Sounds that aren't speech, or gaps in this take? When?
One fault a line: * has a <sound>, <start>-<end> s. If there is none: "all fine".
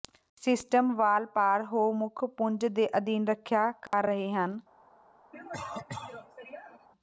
* has a dropout, 3.9-3.9 s
* has a cough, 5.3-6.9 s